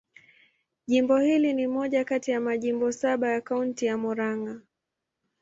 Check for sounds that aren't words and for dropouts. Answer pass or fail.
pass